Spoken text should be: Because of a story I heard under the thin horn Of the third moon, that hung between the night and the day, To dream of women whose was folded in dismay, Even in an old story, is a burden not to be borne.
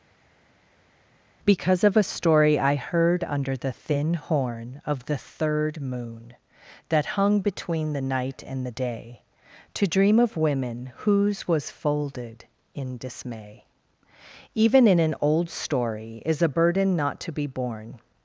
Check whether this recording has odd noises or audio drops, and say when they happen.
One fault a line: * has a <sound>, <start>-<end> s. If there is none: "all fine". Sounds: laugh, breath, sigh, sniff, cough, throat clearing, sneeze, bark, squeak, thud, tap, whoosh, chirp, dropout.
all fine